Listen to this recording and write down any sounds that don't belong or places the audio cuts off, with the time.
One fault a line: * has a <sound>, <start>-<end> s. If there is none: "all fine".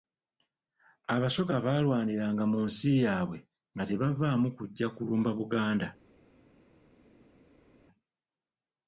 all fine